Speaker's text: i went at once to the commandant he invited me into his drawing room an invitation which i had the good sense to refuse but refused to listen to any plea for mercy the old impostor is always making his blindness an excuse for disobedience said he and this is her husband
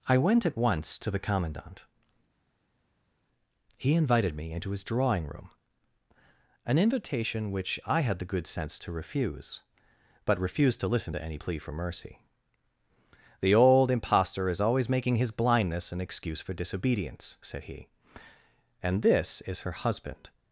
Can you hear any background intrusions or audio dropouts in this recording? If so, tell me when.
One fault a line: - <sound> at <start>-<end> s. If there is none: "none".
none